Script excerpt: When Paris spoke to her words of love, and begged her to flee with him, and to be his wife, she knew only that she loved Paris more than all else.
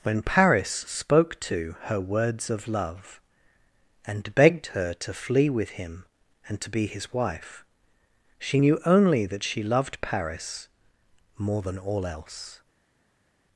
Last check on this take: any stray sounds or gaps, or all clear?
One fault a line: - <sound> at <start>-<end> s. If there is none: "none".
none